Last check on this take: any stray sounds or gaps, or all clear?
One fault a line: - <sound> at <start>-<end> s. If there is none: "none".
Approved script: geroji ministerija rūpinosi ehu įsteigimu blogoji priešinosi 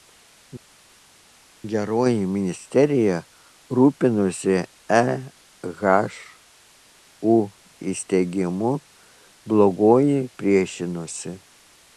none